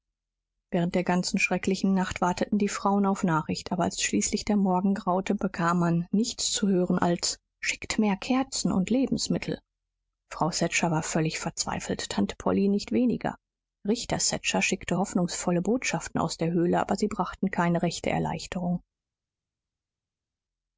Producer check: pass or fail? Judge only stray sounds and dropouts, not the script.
pass